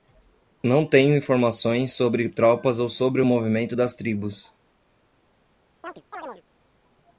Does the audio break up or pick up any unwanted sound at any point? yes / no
yes